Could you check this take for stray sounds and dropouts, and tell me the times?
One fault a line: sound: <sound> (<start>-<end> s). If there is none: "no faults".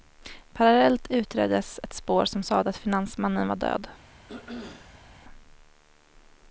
sound: throat clearing (4.3-5.1 s)